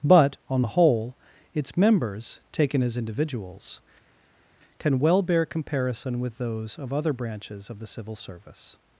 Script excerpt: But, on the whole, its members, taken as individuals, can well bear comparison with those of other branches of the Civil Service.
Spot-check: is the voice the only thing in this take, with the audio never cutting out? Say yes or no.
yes